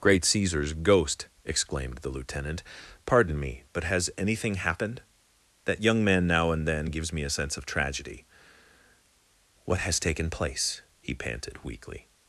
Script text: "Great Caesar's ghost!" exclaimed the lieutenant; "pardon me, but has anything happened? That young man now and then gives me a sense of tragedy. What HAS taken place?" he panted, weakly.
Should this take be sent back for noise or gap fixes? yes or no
no